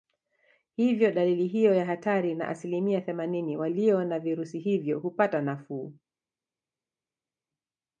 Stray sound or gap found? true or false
false